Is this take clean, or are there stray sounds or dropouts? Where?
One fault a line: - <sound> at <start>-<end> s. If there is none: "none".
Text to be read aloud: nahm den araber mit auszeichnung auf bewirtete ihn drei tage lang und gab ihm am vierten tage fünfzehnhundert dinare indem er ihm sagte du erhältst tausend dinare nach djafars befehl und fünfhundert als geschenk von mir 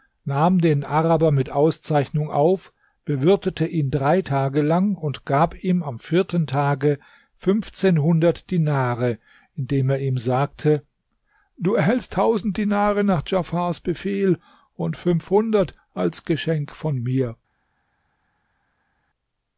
none